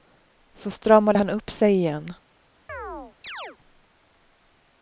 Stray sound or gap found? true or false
true